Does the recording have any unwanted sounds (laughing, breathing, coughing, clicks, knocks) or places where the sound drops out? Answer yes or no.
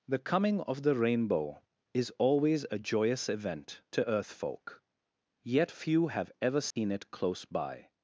yes